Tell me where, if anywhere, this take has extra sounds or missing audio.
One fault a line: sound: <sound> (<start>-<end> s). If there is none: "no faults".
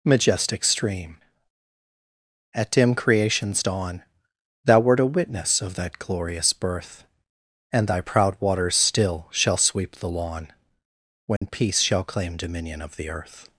sound: dropout (11.4-11.4 s)